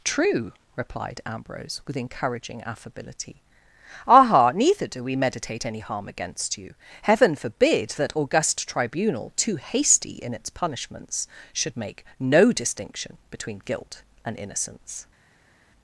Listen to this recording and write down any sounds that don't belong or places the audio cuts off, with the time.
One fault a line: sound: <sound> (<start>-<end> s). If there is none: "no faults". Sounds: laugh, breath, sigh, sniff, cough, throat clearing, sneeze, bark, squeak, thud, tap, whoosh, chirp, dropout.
no faults